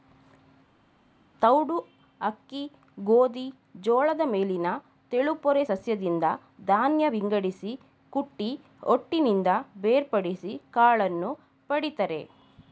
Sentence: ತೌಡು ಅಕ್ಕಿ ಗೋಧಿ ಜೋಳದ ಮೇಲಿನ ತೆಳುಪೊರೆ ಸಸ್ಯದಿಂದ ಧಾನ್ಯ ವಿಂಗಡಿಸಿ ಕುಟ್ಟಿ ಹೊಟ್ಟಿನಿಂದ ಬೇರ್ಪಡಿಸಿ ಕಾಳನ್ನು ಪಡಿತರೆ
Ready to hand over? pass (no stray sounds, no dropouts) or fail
pass